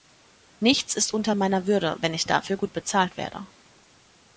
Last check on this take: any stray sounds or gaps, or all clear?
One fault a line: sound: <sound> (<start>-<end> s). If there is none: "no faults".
no faults